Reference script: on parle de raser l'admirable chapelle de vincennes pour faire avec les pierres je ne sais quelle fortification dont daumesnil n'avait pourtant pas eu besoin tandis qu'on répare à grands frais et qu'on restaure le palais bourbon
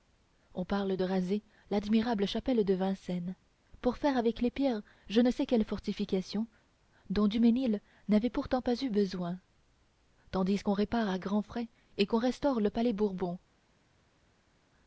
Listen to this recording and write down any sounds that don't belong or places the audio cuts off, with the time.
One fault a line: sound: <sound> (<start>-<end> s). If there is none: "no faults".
no faults